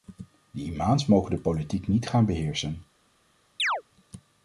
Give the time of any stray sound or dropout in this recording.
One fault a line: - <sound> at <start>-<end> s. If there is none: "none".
- chirp at 3.6-3.8 s